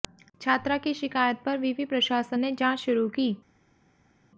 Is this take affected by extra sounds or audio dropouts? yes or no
no